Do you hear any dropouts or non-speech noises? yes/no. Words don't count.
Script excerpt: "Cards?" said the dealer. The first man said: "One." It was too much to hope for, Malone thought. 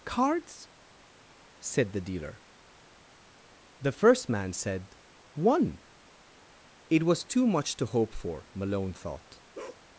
yes